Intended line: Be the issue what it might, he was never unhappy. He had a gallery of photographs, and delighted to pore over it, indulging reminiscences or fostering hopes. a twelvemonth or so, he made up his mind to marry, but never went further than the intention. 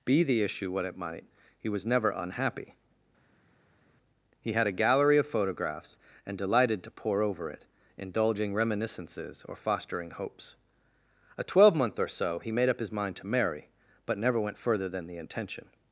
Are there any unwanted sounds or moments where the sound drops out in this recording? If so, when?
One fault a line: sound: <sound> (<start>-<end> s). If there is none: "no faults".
no faults